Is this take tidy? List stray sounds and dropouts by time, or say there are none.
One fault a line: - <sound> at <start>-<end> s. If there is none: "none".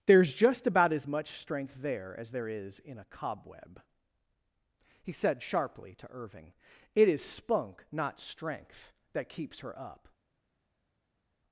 none